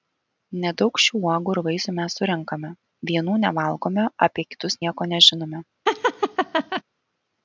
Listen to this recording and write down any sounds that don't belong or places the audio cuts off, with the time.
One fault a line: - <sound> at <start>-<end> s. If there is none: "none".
- laugh at 5.9-6.8 s